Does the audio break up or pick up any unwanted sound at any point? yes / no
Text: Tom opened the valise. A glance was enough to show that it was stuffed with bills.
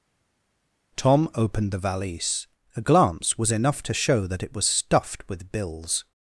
no